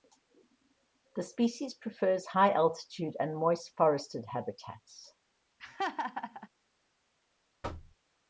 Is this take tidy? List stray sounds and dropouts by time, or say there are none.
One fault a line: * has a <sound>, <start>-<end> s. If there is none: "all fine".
* has a laugh, 5.6-6.5 s
* has a thud, 7.6-8.0 s